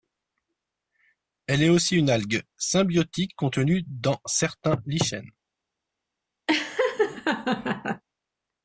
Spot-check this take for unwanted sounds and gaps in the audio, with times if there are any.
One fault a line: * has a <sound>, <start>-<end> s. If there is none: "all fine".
* has a laugh, 6.5-8.0 s